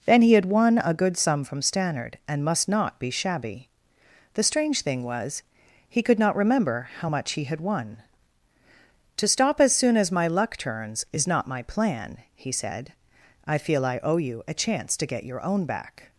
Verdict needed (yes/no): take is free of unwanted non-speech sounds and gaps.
yes